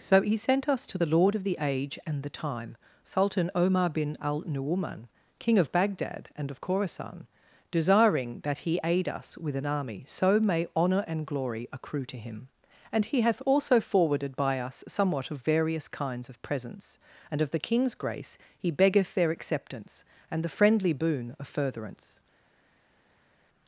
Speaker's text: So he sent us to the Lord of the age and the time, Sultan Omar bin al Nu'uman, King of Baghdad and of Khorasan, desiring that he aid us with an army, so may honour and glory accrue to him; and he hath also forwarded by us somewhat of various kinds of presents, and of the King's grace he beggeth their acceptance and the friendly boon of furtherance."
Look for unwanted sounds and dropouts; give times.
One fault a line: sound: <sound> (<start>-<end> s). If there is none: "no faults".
no faults